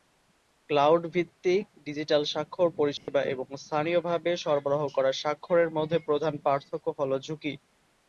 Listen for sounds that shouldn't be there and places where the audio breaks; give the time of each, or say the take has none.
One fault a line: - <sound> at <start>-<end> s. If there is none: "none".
- dropout at 3.0-3.1 s